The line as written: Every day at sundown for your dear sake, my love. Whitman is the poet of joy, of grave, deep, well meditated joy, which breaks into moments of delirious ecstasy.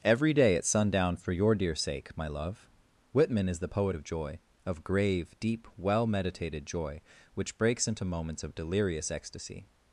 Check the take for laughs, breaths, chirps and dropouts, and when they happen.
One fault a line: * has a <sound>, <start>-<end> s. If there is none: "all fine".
all fine